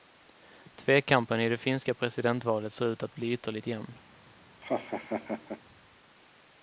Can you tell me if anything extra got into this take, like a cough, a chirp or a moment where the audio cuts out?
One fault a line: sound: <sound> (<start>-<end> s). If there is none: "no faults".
sound: laugh (4.6-5.6 s)